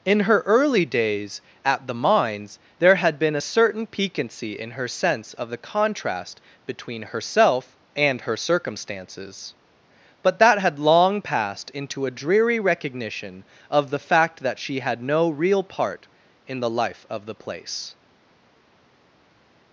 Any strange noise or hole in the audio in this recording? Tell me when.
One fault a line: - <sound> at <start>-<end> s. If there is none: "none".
none